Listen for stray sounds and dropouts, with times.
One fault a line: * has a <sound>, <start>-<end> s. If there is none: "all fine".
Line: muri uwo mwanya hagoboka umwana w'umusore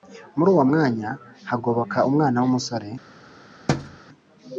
* has a thud, 3.7-4.0 s